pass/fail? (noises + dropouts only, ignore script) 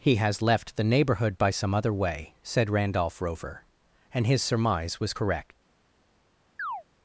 fail